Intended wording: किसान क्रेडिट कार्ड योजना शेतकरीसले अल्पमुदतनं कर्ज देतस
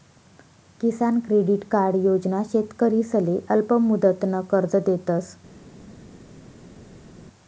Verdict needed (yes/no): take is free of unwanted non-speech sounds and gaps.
yes